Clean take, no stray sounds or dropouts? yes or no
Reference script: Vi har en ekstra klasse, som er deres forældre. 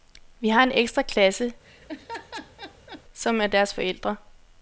no